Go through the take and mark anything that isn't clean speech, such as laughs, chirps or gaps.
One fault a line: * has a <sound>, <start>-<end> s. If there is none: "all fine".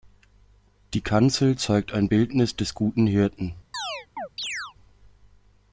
* has a chirp, 3.7-4.7 s